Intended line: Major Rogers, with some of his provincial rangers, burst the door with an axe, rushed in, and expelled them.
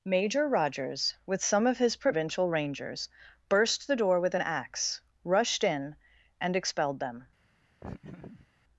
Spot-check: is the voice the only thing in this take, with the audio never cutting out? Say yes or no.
no